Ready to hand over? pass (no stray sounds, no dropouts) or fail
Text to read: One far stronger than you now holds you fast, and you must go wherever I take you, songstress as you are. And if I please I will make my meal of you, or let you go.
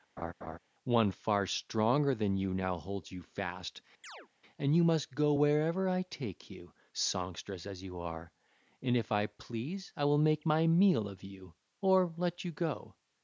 fail